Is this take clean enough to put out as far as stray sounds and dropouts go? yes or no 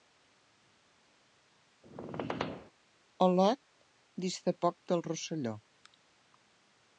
no